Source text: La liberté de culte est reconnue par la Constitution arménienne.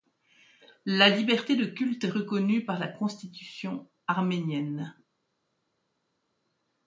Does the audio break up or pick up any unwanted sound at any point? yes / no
no